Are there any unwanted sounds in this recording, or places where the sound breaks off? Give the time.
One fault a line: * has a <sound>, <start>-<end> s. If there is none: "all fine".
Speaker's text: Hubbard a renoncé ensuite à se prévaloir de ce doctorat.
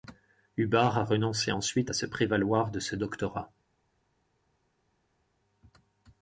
all fine